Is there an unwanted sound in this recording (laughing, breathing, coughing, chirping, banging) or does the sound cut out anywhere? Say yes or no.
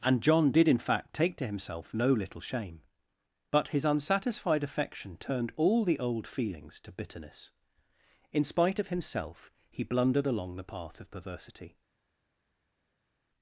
no